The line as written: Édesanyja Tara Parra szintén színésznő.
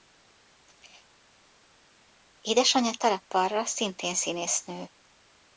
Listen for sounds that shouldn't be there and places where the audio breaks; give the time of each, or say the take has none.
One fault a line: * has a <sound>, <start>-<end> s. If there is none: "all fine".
all fine